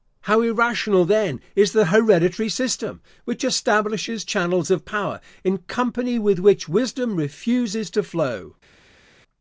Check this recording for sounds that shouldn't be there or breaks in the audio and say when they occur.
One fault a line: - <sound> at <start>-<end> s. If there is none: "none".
none